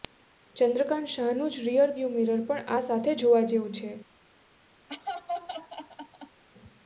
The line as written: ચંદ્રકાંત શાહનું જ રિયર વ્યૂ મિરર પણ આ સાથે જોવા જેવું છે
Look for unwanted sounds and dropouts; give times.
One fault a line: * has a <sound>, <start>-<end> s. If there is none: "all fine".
* has a laugh, 4.9-6.4 s